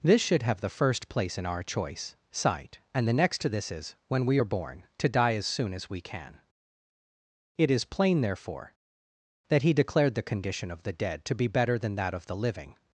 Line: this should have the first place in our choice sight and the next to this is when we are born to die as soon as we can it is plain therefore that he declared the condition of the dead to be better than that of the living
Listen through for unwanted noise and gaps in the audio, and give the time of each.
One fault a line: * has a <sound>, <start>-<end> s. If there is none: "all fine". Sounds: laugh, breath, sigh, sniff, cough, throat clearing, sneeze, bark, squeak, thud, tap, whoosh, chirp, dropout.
all fine